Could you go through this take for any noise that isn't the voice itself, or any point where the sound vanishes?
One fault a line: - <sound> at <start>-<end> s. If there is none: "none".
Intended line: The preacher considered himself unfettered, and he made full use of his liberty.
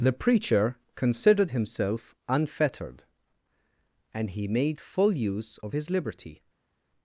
none